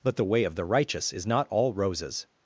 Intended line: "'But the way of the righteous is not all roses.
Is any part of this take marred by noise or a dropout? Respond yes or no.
no